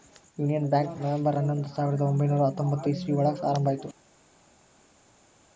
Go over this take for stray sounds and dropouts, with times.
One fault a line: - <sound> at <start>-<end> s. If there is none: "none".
none